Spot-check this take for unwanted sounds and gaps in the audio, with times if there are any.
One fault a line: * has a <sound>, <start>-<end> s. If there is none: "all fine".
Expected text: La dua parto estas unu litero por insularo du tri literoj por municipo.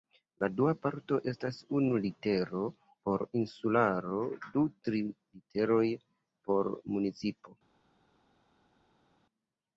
all fine